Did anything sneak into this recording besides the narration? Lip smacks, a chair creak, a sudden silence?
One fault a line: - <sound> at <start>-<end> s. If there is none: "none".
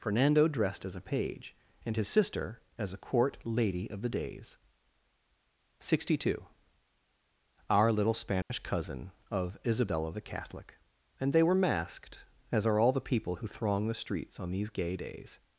- dropout at 8.4-8.5 s